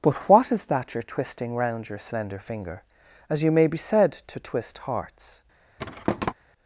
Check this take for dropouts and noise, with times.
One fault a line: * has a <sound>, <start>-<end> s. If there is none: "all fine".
* has a thud, 5.8-6.3 s